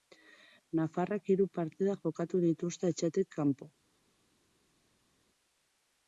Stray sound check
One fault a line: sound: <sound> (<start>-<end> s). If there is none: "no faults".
no faults